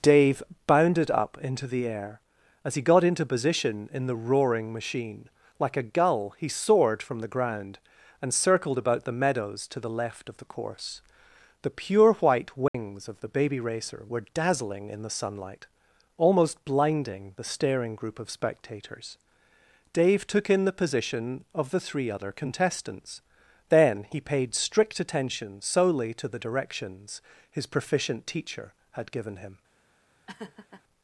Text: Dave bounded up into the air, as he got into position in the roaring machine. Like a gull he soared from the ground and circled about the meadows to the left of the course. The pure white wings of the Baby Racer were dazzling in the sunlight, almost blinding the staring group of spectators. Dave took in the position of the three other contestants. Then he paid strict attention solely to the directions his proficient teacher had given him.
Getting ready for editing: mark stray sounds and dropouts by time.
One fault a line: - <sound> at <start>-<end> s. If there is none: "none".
- dropout at 12.7-12.7 s
- laugh at 30.3-30.8 s